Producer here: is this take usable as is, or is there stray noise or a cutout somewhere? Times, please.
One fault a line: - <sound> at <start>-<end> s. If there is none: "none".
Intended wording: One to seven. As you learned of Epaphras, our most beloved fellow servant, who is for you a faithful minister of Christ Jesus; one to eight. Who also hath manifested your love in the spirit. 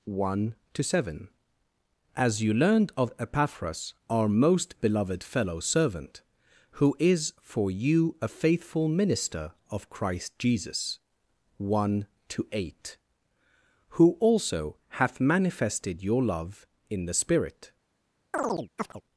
- chirp at 18.3-19.0 s